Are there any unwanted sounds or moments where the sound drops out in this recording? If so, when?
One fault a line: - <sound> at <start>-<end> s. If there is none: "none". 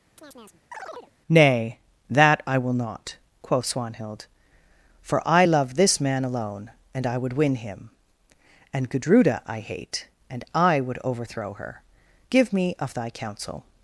- chirp at 0.2-1.1 s